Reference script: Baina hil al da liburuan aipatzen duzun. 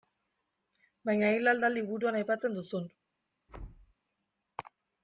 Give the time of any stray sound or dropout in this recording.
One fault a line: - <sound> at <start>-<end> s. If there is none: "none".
- thud at 3.5-3.9 s